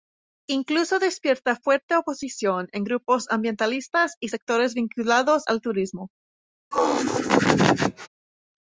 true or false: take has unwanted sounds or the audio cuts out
true